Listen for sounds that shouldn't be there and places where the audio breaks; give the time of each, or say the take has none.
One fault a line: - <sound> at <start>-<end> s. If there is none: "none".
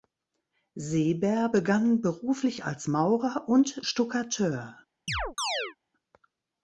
- chirp at 5.1-5.8 s